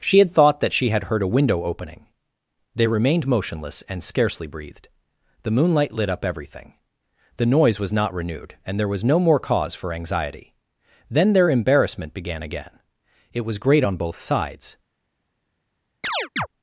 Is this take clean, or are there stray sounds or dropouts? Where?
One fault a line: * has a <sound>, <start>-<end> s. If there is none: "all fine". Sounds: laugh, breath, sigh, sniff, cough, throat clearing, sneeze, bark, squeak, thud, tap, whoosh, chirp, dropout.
* has a chirp, 16.0-16.5 s